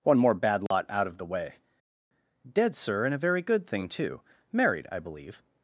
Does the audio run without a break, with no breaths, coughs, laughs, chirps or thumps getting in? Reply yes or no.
no